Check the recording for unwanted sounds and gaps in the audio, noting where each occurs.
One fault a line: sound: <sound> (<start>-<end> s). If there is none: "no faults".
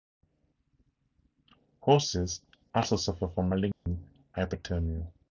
sound: dropout (3.7-3.9 s)